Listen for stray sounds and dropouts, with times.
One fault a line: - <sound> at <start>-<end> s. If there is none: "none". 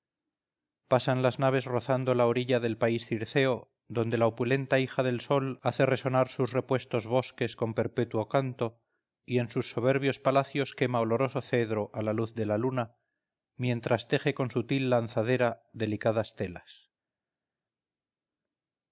none